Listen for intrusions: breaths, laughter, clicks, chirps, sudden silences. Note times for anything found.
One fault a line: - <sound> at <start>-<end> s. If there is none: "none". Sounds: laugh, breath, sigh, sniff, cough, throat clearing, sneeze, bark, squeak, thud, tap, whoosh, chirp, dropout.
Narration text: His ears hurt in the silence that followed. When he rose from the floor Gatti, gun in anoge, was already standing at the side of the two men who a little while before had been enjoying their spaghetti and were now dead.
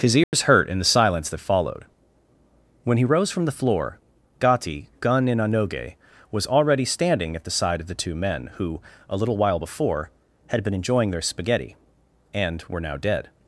- dropout at 0.2-0.3 s